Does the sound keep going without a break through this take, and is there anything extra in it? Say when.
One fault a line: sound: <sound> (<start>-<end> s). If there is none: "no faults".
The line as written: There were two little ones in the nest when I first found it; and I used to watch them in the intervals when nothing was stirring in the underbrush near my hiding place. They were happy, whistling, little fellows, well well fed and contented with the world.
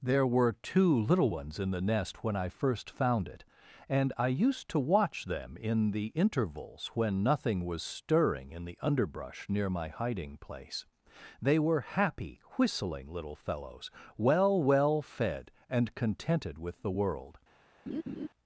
sound: laugh (17.9-18.3 s)